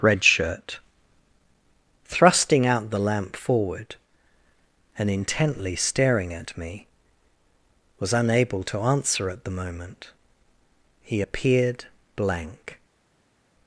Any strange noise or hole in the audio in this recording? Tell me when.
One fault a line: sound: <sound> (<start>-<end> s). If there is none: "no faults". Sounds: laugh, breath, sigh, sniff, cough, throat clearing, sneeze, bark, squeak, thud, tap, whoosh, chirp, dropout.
no faults